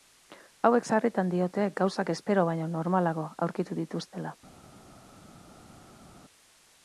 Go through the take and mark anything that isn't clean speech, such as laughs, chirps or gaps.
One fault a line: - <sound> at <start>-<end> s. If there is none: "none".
none